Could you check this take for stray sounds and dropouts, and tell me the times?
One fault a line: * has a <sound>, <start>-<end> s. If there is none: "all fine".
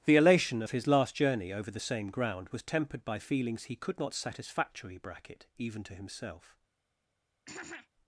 * has a throat clearing, 7.5-7.9 s